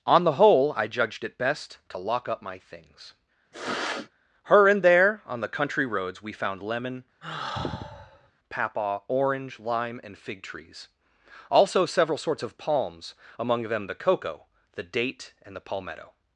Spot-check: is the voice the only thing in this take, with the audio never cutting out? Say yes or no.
no